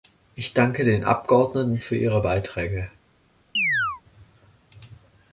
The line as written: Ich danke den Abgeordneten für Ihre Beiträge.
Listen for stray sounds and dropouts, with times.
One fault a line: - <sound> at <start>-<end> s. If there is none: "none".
- chirp at 3.5-4.0 s